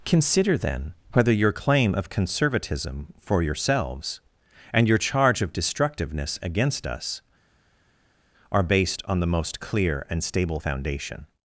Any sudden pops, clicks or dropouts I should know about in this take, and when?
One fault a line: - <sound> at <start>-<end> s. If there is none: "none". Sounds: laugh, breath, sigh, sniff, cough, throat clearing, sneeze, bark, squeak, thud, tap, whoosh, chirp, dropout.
none